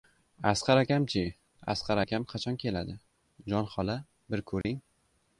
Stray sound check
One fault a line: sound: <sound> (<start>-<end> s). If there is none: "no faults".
sound: dropout (4.6-4.6 s)